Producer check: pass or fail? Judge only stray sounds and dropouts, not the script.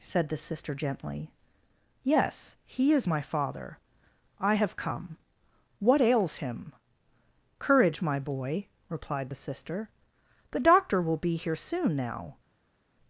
pass